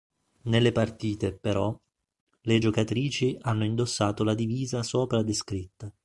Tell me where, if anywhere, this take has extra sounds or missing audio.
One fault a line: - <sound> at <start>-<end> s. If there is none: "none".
none